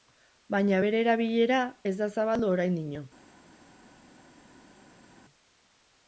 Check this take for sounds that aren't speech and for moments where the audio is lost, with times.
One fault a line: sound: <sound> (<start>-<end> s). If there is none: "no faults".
no faults